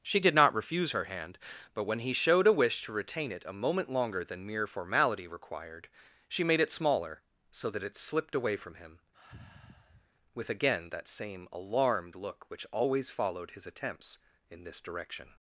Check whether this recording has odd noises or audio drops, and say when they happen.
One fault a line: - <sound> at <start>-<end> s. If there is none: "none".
- sigh at 9.1-10.1 s